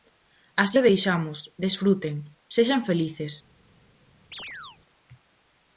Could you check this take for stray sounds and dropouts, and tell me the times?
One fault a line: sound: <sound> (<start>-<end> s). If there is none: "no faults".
sound: chirp (4.3-4.8 s)